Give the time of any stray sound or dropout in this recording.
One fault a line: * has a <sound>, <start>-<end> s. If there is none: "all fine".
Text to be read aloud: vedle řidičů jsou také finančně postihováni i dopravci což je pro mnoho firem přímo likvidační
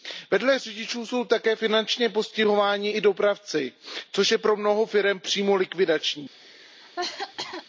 * has a cough, 6.3-7.7 s